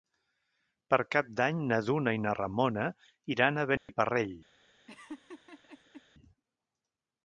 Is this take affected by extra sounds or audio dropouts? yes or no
yes